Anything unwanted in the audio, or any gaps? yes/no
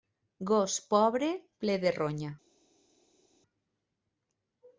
no